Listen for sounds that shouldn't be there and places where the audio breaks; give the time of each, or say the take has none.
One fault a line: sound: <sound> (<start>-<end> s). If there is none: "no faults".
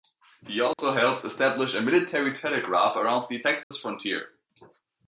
sound: dropout (0.7-0.8 s)
sound: dropout (3.6-3.7 s)